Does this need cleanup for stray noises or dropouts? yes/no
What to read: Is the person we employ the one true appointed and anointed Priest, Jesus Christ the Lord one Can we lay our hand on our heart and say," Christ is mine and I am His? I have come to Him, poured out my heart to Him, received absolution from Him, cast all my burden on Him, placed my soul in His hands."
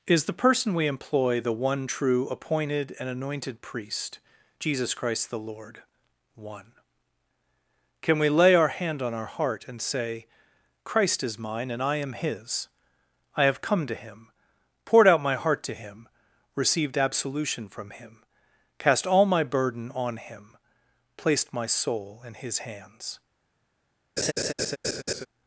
yes